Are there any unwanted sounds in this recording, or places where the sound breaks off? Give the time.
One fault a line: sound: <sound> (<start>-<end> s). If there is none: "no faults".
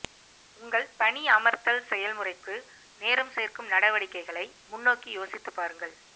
no faults